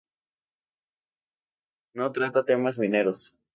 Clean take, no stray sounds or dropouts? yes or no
yes